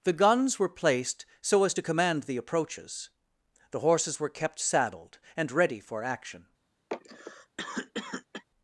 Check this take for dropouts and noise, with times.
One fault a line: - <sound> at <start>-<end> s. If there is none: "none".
- cough at 6.9-8.4 s